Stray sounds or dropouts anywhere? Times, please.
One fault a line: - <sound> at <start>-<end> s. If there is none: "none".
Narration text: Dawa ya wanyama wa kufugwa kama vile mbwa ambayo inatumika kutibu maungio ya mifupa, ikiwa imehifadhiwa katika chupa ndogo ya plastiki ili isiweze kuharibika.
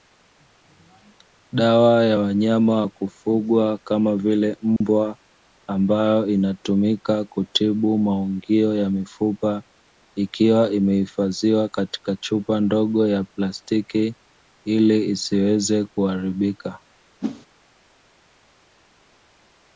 - dropout at 4.8-4.8 s
- whoosh at 17.2-17.5 s